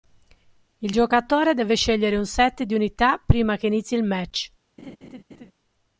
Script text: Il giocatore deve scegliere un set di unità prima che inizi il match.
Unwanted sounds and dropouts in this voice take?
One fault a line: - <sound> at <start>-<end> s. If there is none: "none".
- laugh at 4.8-5.5 s